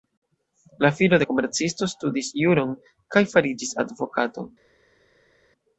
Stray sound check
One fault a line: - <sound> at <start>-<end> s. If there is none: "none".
none